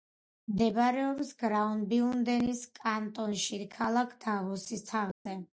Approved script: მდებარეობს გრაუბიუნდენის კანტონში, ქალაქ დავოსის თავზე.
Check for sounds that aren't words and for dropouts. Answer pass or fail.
fail